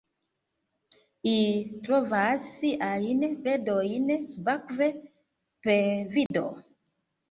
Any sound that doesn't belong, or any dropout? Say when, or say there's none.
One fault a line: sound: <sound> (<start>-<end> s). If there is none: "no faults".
sound: dropout (6.3-6.3 s)